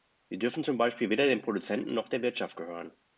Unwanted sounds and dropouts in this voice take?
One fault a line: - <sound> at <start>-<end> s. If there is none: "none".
none